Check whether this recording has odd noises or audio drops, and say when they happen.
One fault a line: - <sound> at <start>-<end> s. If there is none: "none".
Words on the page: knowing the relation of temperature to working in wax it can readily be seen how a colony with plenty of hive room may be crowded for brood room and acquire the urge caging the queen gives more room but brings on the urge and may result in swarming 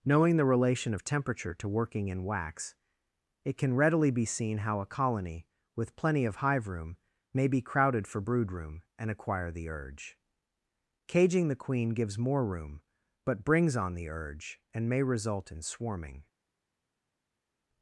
none